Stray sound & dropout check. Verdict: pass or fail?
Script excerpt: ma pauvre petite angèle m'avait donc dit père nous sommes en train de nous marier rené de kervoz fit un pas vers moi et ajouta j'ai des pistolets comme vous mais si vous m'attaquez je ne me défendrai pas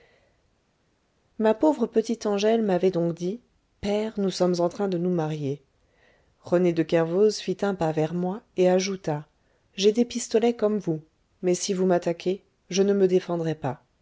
pass